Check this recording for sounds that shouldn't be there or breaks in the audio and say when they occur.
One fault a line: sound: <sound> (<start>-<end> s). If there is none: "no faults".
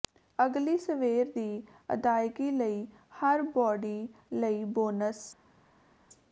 no faults